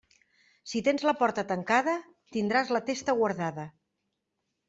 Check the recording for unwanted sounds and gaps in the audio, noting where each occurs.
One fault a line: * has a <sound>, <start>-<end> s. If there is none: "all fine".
all fine